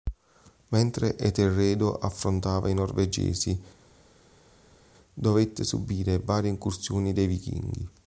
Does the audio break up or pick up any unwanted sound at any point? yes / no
no